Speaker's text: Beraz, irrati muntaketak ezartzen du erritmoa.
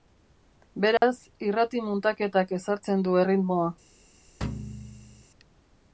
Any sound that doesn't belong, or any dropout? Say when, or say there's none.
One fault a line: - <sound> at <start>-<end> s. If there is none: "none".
- dropout at 1.0-1.0 s
- thud at 4.4-5.2 s